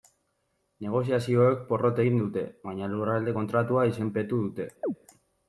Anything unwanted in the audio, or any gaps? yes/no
yes